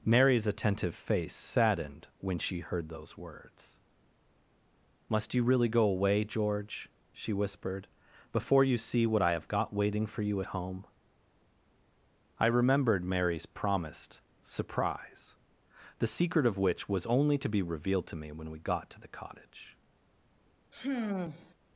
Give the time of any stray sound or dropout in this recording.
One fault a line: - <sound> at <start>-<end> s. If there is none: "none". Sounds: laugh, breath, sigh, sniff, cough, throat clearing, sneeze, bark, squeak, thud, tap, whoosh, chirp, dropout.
- sigh at 20.7-21.5 s